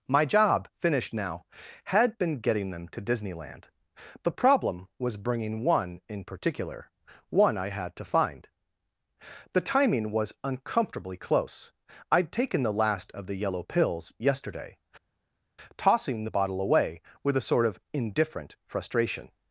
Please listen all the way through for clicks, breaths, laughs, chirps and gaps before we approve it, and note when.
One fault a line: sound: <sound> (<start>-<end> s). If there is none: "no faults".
no faults